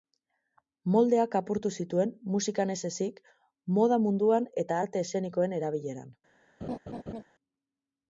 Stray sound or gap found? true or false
true